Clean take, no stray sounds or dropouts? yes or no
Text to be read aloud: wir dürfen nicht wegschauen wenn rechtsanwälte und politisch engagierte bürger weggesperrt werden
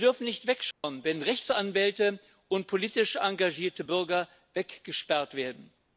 no